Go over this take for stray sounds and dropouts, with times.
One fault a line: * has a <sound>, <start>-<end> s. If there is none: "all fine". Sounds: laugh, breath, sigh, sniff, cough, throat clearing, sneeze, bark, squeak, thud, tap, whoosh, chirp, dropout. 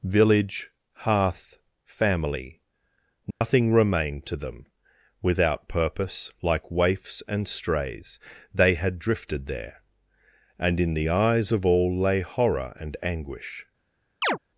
* has a dropout, 3.3-3.4 s
* has a chirp, 14.2-14.4 s